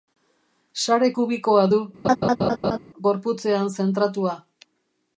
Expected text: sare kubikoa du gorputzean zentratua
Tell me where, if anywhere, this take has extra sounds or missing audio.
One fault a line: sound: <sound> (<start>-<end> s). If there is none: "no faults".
sound: laugh (2.0-2.8 s)